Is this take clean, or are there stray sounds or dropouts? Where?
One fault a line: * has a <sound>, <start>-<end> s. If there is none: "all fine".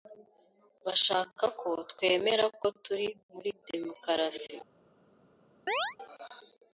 * has a chirp, 5.7-6.0 s